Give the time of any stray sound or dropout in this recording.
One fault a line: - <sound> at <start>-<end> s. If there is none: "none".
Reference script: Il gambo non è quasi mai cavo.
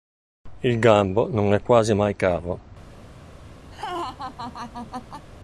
- laugh at 3.7-5.3 s